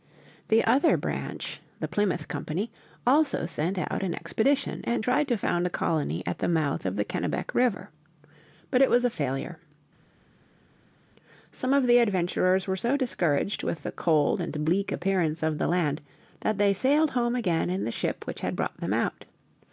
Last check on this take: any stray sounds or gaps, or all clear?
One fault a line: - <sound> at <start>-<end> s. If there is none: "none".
none